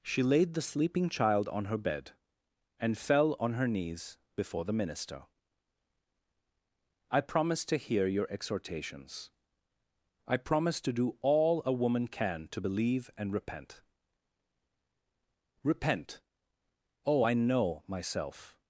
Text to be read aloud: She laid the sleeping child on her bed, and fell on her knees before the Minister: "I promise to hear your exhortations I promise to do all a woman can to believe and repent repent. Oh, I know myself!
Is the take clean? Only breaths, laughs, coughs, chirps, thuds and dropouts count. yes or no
yes